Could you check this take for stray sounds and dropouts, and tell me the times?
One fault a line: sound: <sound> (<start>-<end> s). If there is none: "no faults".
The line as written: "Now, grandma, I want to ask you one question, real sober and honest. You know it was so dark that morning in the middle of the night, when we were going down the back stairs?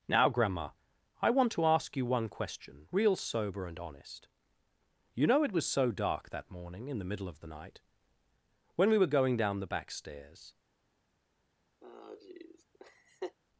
sound: laugh (11.8-13.4 s)